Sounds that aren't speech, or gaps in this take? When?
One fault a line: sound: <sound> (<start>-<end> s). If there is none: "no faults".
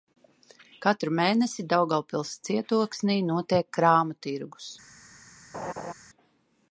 sound: laugh (5.5-5.9 s)